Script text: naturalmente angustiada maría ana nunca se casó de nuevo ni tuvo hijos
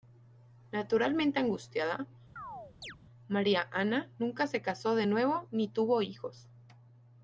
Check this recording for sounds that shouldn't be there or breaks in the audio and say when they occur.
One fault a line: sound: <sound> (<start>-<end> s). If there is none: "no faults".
sound: chirp (2.4-3.0 s)